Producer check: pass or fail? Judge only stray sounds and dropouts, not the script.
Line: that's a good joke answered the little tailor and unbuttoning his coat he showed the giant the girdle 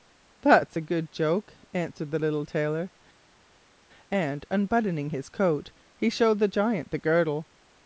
pass